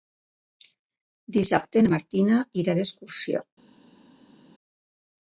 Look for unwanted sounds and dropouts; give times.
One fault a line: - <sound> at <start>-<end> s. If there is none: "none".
none